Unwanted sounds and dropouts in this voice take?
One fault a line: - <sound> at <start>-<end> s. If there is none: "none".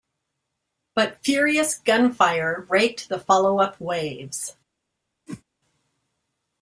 - whoosh at 5.3-5.4 s